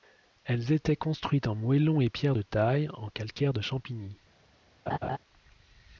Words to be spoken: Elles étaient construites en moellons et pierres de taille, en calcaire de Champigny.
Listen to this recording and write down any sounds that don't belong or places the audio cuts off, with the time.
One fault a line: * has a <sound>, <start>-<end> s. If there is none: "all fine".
* has a laugh, 4.9-5.2 s